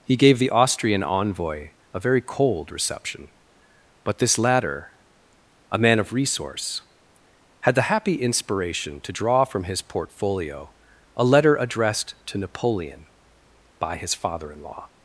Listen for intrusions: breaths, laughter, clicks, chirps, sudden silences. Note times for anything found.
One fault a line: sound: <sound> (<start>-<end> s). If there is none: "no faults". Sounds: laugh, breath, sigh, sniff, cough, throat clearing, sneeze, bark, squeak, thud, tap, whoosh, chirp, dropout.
no faults